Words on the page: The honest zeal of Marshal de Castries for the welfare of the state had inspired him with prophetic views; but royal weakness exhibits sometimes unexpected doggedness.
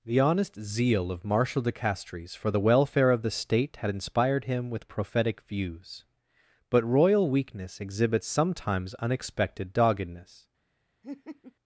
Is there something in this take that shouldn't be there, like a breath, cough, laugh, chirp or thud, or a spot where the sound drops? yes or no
yes